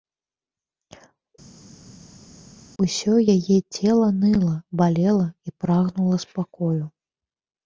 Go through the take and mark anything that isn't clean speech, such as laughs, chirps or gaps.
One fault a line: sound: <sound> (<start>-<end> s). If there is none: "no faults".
no faults